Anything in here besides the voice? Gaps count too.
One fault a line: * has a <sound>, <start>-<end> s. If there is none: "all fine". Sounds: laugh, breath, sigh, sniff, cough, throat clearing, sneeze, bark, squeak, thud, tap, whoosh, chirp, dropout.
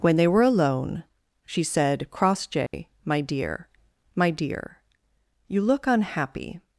* has a dropout, 2.7-2.7 s